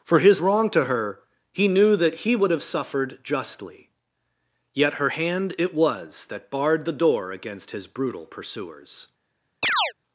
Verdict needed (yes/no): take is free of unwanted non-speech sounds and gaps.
no